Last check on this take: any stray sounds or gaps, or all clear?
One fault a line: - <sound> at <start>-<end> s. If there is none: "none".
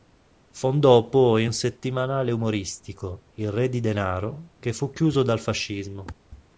none